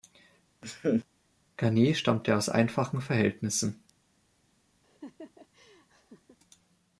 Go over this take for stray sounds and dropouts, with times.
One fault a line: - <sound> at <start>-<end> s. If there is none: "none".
- laugh at 0.6-1.0 s
- laugh at 4.8-6.4 s